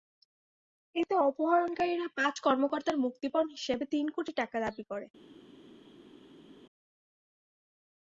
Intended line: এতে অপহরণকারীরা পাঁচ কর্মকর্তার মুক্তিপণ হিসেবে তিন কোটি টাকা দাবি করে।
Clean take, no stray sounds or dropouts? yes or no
yes